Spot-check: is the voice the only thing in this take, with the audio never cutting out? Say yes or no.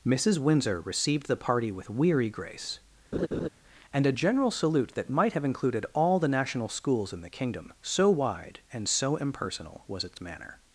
no